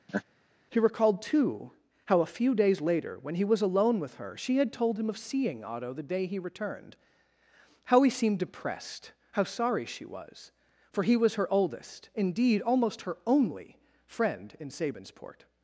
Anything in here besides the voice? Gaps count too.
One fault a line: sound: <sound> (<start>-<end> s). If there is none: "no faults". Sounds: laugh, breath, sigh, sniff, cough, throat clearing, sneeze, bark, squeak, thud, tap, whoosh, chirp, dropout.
sound: laugh (0.1-0.2 s)